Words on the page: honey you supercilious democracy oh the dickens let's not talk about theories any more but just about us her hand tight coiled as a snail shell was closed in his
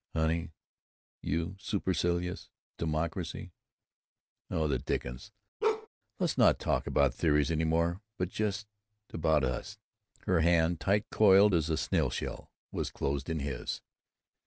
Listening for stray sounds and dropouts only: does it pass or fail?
fail